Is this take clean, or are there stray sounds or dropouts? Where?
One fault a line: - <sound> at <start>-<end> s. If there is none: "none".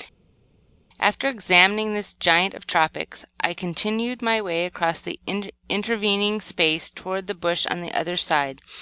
none